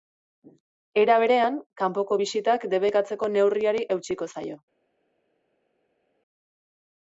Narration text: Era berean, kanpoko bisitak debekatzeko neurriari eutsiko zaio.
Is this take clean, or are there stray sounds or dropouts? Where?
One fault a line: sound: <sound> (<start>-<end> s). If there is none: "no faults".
no faults